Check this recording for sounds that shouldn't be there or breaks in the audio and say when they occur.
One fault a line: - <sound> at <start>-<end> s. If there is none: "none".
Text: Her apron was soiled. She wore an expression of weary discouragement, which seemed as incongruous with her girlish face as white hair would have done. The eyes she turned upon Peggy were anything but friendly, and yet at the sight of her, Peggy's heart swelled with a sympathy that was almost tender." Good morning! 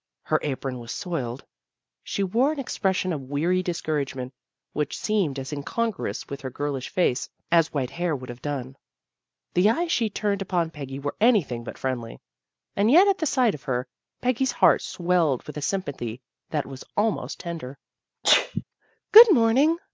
- sneeze at 18.2-18.6 s